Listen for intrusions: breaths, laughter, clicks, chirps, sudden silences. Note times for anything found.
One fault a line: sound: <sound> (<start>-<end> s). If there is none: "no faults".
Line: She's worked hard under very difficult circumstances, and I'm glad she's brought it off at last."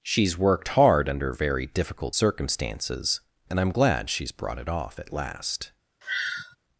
sound: sigh (6.0-6.6 s)